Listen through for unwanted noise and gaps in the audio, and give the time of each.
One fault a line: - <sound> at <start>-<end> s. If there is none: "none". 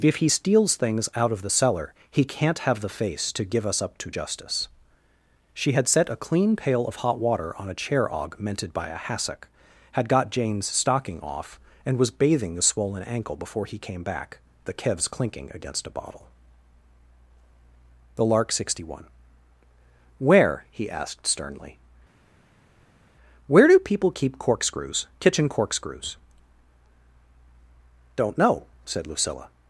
none